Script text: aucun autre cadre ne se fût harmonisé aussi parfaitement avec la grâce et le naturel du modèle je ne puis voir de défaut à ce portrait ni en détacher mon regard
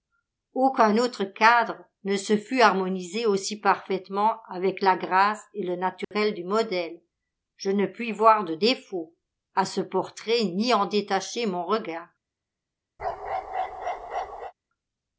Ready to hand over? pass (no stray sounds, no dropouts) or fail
fail